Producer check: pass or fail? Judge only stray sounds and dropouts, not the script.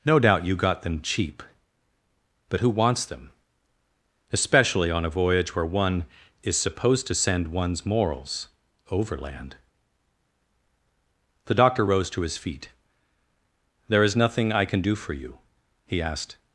pass